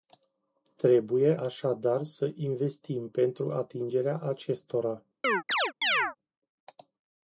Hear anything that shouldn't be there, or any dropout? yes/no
yes